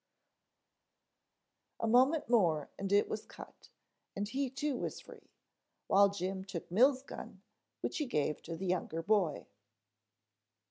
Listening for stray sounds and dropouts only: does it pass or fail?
pass